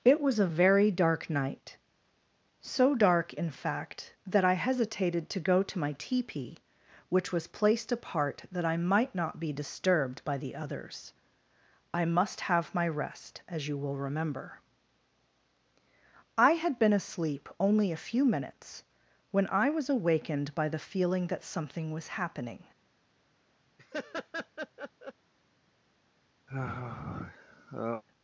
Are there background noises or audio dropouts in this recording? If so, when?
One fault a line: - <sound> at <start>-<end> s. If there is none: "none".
- laugh at 23.8-25.1 s
- sigh at 26.5-28.0 s